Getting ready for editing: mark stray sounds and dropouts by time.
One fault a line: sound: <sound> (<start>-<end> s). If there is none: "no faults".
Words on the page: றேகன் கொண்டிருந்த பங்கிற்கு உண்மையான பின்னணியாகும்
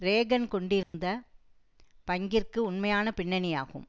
sound: dropout (0.8-0.9 s)